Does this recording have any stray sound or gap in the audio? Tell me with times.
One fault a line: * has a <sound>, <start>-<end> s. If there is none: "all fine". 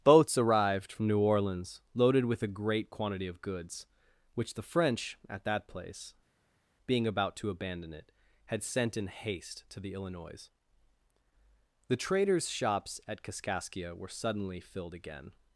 all fine